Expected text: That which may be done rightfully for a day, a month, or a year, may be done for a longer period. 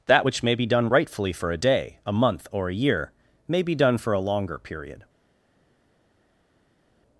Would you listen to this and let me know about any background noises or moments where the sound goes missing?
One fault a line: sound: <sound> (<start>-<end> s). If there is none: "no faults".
no faults